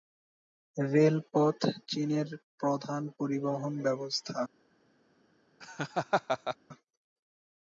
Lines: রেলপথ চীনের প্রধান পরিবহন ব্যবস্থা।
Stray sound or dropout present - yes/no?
yes